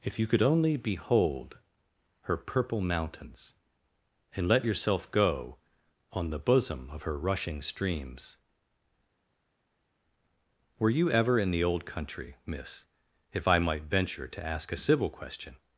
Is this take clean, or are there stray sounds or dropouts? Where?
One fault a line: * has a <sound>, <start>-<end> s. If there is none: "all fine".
all fine